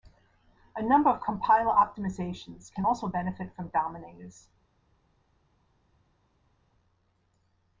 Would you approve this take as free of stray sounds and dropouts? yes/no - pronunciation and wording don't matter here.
yes